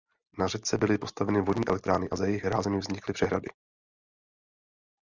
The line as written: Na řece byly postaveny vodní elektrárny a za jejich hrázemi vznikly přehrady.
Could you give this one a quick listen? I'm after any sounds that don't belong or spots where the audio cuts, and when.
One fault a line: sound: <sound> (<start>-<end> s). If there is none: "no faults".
no faults